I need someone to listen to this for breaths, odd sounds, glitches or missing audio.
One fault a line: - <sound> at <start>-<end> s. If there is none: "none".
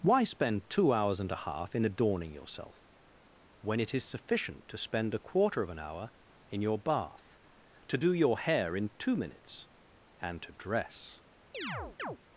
- chirp at 11.5-12.2 s